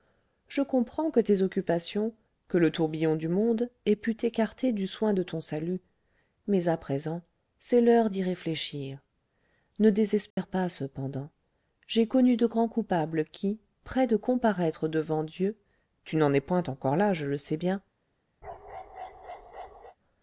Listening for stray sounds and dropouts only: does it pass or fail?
fail